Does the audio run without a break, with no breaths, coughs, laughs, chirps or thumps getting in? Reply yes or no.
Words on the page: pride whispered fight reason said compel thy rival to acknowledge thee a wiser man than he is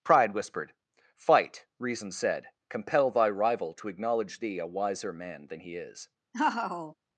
no